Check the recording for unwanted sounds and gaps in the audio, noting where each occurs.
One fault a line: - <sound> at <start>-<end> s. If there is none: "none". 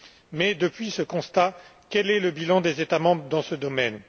none